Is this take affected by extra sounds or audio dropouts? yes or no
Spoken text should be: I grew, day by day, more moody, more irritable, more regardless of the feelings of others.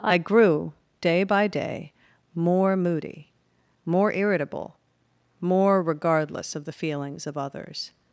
no